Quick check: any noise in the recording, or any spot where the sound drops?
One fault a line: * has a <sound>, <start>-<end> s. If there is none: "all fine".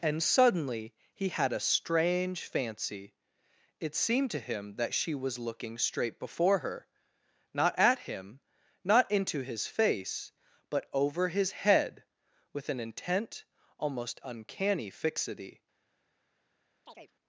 * has a chirp, 16.9-17.1 s